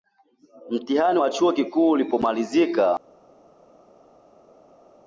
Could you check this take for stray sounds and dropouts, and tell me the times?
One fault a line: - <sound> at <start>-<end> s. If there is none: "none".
none